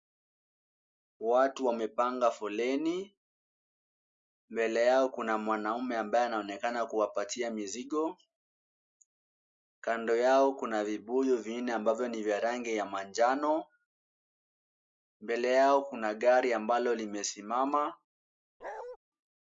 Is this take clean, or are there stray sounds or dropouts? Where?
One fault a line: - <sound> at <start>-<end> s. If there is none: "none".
- bark at 18.6-19.0 s